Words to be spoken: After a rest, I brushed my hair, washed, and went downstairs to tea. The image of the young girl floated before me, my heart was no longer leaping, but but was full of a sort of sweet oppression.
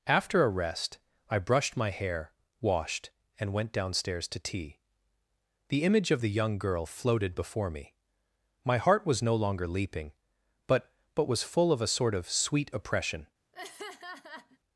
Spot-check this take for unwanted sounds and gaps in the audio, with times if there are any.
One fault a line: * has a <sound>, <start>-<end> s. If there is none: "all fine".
* has a laugh, 13.5-14.6 s